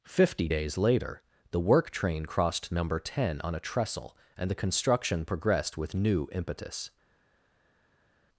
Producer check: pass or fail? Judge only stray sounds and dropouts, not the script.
pass